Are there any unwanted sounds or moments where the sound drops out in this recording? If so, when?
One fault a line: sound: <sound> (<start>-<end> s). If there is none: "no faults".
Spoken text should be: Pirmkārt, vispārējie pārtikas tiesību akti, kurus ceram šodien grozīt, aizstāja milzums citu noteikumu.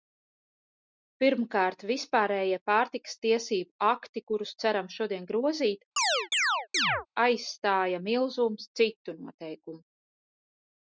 sound: chirp (6.0-7.1 s)